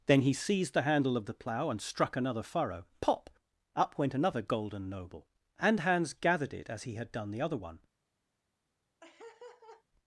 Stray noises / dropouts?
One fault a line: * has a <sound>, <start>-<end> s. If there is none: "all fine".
* has a laugh, 9.0-9.8 s